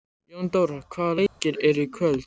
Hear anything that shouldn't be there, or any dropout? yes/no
yes